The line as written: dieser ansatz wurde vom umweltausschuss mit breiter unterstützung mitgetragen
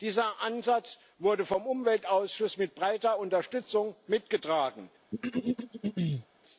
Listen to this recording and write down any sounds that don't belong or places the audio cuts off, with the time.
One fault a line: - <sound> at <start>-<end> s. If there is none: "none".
- throat clearing at 5.1-6.3 s